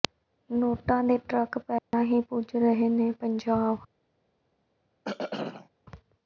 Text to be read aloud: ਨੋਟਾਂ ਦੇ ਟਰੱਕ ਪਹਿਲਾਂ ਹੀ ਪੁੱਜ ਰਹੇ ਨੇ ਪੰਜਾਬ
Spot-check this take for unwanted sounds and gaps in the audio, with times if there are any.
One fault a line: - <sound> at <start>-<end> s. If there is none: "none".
- dropout at 1.8-1.9 s
- throat clearing at 5.0-5.7 s